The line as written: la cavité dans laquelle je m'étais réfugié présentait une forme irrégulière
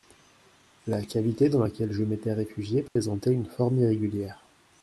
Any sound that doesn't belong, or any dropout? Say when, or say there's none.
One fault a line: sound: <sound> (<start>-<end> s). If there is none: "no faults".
sound: dropout (2.9-3.0 s)